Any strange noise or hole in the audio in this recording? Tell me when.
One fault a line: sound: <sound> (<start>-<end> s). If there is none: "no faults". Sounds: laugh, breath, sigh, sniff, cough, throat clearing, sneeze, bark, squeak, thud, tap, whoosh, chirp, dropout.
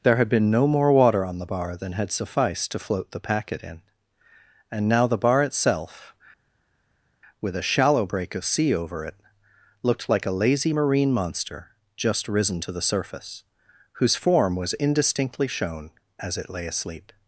no faults